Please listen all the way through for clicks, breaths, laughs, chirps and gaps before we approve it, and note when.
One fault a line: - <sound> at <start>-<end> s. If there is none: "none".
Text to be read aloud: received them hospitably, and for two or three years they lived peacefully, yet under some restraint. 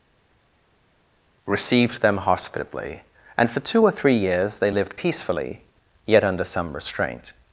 none